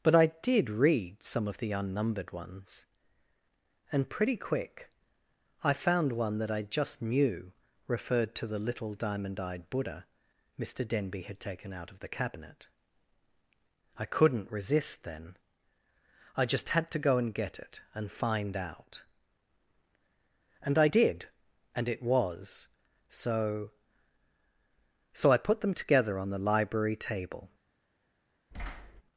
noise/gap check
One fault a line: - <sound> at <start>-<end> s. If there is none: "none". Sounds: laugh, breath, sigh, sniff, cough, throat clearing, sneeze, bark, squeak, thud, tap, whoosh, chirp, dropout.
- thud at 28.5-29.0 s